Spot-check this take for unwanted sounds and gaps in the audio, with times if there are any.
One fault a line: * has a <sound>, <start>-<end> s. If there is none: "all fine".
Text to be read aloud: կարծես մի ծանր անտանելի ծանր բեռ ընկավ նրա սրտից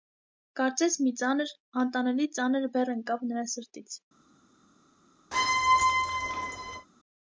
* has a squeak, 5.3-6.9 s